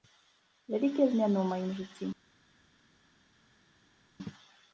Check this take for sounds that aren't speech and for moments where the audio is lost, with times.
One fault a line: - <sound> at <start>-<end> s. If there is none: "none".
none